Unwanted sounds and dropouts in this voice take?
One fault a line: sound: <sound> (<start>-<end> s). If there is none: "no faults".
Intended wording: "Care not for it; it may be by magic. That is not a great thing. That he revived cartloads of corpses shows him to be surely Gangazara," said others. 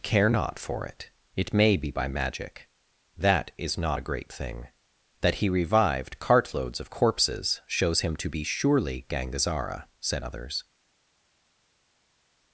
no faults